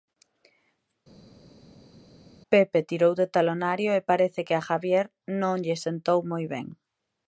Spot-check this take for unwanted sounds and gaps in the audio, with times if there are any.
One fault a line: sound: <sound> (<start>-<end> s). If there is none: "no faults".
no faults